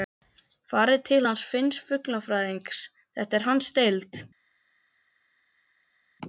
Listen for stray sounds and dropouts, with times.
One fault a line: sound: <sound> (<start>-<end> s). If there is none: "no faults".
no faults